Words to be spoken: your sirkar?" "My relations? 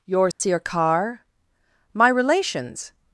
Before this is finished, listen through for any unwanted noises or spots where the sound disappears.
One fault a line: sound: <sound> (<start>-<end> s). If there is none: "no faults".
sound: dropout (0.3-0.4 s)